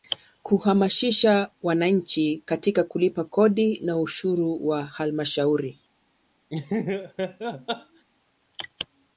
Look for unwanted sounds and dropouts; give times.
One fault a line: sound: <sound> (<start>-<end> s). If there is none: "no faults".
sound: laugh (6.5-8.0 s)